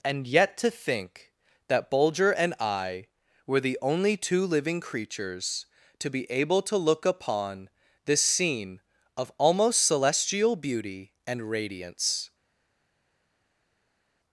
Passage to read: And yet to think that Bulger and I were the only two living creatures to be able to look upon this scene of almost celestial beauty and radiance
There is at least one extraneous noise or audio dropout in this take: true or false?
false